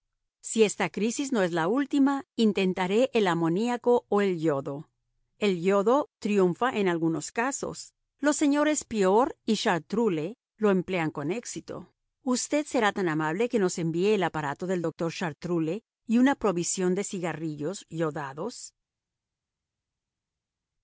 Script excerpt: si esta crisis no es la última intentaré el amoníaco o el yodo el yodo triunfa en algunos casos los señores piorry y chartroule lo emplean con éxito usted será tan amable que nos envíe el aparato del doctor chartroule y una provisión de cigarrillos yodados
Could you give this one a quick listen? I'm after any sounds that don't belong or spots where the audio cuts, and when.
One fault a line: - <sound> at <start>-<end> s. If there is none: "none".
none